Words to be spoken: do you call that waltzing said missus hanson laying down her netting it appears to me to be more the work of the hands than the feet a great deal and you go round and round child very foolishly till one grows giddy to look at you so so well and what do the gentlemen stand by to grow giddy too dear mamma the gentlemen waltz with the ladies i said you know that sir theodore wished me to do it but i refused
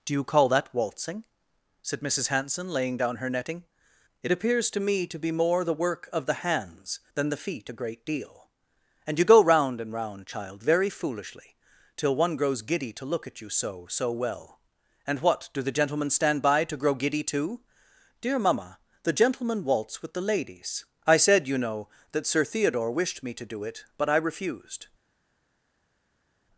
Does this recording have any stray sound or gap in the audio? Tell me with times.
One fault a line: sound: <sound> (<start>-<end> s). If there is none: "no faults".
no faults